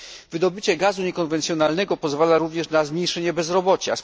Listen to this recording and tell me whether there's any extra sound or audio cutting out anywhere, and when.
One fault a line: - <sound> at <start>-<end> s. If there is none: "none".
none